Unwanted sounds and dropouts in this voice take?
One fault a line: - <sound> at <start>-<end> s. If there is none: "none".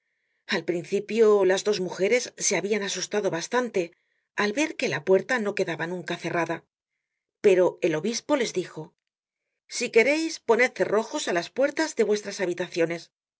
none